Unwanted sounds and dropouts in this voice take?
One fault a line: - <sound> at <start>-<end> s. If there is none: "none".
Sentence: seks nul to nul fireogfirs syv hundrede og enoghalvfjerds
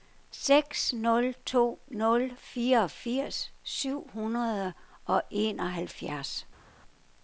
none